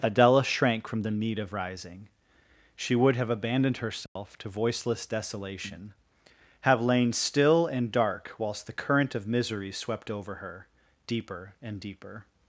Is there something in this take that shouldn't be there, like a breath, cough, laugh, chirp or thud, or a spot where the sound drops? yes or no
yes